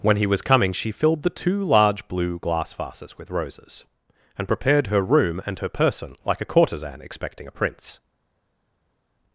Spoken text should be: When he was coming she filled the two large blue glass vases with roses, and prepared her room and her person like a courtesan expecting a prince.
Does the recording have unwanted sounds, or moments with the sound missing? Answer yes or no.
no